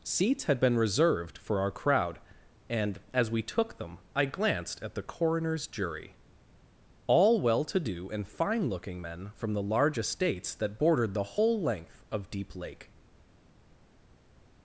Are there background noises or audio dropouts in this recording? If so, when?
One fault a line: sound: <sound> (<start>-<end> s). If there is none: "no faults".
no faults